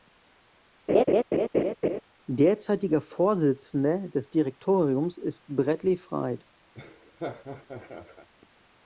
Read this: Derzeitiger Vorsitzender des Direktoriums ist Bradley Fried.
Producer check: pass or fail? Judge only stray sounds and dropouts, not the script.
fail